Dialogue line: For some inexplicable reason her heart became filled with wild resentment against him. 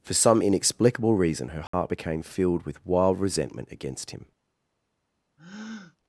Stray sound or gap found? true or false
true